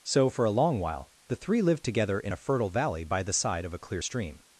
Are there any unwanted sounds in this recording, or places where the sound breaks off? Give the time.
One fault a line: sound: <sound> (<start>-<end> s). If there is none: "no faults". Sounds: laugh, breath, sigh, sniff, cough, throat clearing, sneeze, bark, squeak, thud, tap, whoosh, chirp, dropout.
no faults